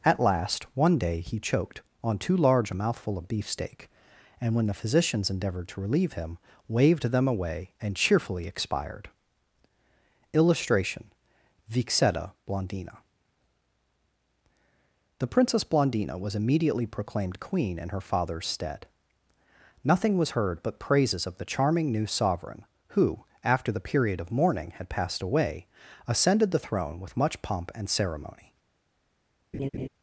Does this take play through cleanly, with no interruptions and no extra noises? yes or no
no